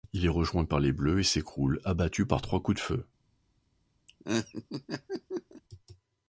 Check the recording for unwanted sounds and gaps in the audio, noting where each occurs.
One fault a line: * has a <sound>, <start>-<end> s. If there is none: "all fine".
* has a laugh, 4.1-5.6 s